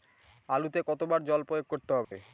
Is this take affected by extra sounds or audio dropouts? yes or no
yes